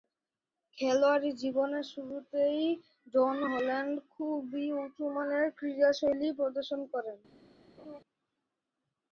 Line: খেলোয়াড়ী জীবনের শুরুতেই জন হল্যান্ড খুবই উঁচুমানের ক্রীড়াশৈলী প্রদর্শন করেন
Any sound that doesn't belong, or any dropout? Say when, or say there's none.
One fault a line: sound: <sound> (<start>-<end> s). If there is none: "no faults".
sound: laugh (7.8-8.0 s)